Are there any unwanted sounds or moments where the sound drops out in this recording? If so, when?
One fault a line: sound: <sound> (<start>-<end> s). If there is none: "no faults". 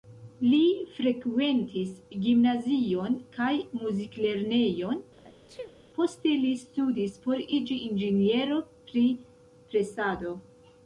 sound: sneeze (5.2-5.8 s)